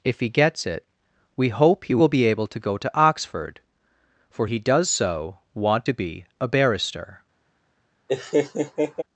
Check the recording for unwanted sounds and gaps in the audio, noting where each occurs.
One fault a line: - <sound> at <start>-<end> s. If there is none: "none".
- laugh at 8.1-9.0 s